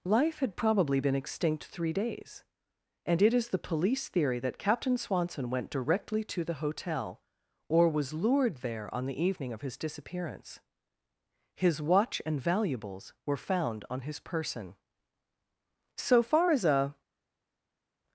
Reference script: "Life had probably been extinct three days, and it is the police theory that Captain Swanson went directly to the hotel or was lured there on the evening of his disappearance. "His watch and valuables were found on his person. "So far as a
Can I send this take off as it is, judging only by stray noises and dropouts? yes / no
yes